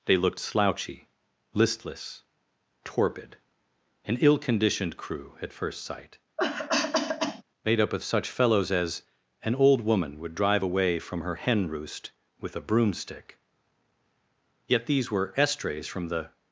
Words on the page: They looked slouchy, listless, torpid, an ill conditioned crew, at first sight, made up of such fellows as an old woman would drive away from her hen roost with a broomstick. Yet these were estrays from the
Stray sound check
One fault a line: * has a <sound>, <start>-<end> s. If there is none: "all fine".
* has a cough, 6.4-7.4 s